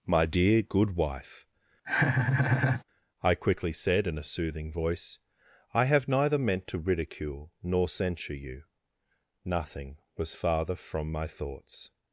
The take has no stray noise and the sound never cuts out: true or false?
false